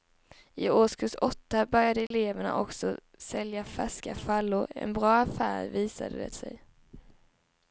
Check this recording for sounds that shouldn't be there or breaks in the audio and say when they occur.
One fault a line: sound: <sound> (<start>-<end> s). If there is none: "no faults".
sound: dropout (2.1-2.1 s)